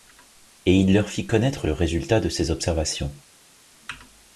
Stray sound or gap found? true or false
false